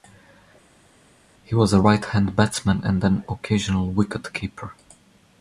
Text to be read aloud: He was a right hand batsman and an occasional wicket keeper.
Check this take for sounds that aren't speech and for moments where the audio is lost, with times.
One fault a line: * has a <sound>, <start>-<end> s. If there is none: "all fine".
all fine